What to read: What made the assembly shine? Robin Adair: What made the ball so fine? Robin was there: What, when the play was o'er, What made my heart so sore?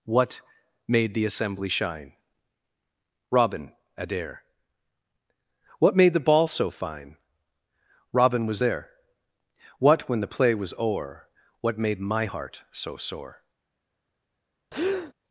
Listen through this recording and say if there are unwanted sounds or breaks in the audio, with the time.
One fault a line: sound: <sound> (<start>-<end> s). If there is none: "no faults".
sound: breath (14.7-15.1 s)